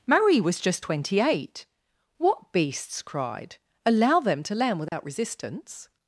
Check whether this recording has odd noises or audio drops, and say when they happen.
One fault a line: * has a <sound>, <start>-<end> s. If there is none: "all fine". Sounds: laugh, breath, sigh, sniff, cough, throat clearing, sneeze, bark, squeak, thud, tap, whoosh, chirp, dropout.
* has a dropout, 4.9-4.9 s